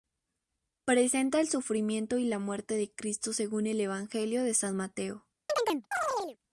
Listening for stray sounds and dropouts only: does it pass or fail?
fail